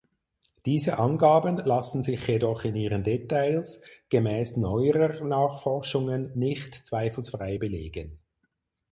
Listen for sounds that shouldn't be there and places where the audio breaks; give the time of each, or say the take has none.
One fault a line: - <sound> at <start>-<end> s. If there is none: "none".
none